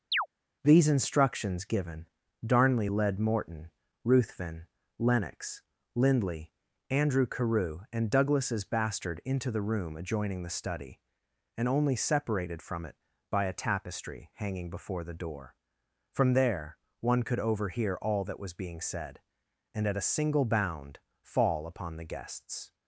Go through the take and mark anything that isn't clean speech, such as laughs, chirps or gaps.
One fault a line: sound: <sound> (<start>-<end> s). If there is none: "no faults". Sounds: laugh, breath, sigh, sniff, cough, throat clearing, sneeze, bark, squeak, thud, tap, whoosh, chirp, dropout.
sound: chirp (0.1-0.3 s)